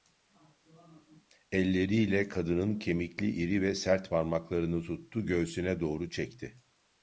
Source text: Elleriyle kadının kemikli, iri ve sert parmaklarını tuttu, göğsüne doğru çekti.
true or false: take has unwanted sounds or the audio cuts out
false